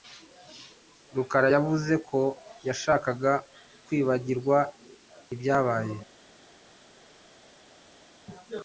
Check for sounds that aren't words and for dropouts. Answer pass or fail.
pass